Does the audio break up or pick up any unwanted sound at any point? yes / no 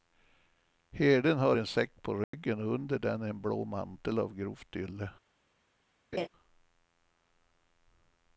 yes